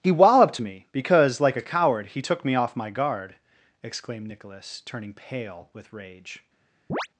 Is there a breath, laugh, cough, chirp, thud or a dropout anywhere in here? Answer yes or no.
yes